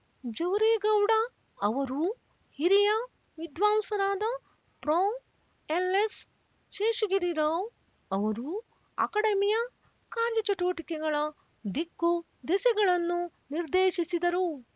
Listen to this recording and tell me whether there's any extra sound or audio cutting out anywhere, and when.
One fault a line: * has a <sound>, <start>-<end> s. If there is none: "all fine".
all fine